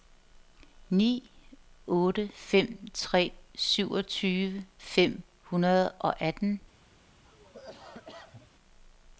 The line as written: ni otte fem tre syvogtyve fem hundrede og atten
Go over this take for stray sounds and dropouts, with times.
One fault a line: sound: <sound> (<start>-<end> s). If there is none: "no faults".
sound: cough (7.2-8.5 s)